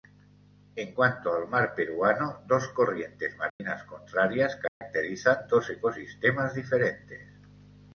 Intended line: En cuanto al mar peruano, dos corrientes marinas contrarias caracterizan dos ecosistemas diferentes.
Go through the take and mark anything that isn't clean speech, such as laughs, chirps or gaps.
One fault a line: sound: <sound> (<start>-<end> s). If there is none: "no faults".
sound: dropout (3.5-3.6 s)
sound: dropout (4.7-4.8 s)